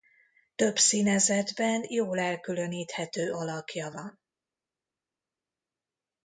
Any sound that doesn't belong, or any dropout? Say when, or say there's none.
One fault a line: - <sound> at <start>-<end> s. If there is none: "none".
none